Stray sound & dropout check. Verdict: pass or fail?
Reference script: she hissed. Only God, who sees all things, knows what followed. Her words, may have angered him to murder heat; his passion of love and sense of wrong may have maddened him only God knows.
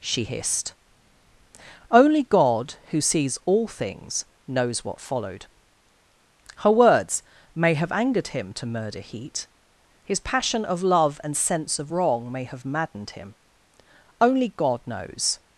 pass